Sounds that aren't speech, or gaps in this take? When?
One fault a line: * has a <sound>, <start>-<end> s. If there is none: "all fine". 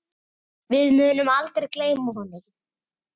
all fine